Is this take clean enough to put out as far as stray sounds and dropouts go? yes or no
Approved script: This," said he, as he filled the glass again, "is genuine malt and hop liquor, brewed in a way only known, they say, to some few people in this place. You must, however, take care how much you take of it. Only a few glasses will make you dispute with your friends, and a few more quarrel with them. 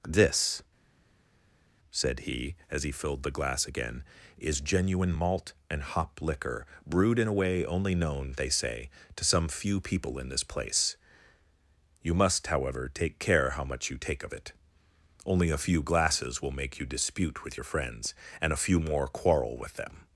yes